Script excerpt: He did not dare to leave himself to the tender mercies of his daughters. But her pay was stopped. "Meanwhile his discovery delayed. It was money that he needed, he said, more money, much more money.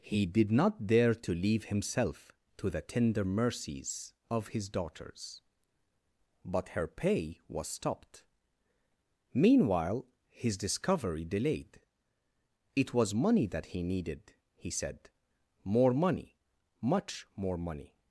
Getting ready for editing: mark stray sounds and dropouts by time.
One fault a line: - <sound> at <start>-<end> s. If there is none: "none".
none